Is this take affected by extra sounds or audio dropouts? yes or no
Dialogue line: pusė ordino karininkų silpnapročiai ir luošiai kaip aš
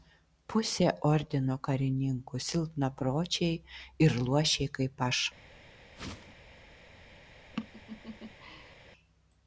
yes